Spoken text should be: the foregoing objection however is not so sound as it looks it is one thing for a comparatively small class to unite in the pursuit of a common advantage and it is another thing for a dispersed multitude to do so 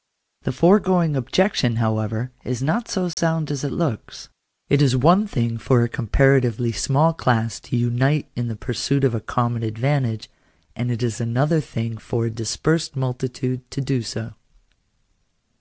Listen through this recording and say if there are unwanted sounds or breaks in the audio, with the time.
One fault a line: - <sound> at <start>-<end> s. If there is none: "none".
- dropout at 3.1-3.2 s